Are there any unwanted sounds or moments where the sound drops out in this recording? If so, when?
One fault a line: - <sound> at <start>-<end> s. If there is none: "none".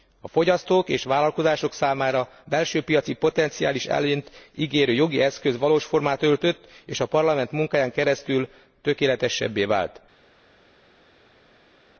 none